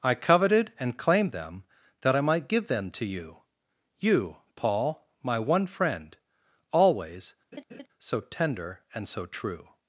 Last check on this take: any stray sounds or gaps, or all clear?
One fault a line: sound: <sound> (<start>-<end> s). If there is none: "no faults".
sound: laugh (7.5-7.9 s)